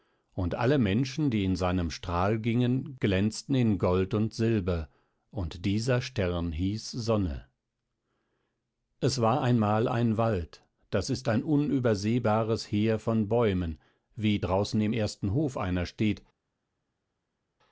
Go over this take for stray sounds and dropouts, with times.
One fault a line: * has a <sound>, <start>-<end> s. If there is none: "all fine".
all fine